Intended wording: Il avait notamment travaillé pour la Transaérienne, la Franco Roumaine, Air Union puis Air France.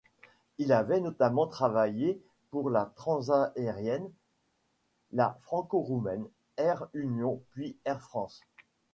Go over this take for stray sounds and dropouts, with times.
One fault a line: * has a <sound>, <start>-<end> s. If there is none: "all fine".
all fine